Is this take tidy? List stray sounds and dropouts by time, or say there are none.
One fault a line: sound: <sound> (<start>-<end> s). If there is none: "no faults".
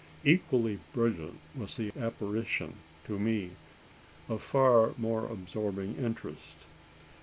no faults